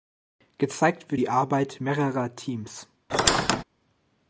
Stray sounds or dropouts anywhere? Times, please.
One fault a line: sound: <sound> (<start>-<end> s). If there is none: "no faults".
sound: squeak (3.1-3.6 s)